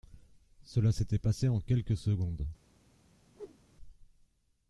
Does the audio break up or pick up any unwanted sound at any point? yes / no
yes